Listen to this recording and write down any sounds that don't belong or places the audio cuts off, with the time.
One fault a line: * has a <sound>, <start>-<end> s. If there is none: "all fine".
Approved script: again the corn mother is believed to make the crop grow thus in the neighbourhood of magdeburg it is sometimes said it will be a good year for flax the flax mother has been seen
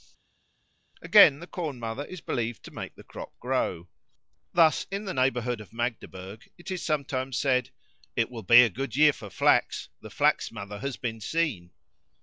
all fine